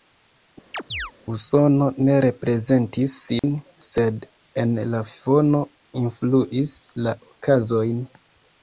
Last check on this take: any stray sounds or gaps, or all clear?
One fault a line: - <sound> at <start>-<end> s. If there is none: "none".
- chirp at 0.7-1.1 s
- dropout at 3.4-3.4 s